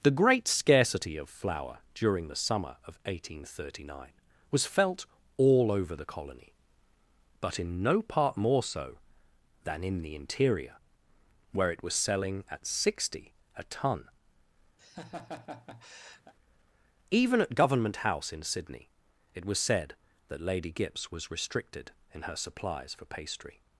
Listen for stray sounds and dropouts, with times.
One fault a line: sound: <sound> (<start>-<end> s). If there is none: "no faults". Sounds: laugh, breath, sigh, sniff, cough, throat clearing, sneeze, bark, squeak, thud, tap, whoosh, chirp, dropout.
sound: laugh (14.8-16.3 s)